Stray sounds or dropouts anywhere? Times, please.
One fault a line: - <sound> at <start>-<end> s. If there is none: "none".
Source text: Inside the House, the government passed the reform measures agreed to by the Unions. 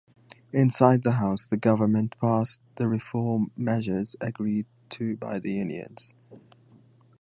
none